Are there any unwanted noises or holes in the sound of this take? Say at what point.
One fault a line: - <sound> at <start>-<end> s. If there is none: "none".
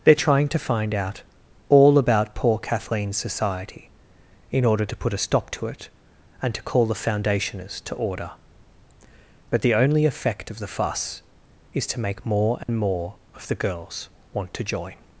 - dropout at 12.6-12.7 s